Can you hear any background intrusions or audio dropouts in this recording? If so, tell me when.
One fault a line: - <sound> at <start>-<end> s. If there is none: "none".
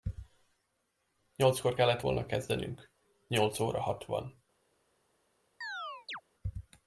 - chirp at 5.6-6.2 s